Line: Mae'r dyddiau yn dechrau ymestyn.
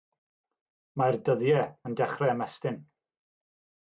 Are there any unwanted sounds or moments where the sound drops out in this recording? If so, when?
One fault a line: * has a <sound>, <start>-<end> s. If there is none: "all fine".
all fine